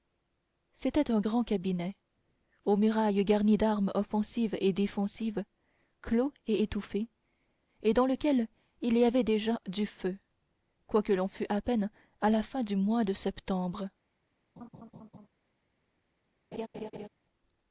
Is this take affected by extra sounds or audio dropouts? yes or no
yes